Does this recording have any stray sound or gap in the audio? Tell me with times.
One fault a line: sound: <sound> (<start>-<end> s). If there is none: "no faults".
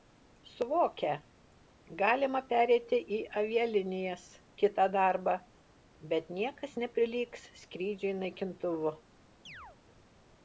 sound: chirp (9.5-9.8 s)